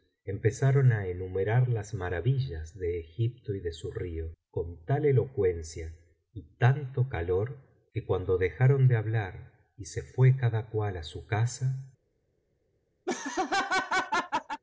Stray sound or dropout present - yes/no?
yes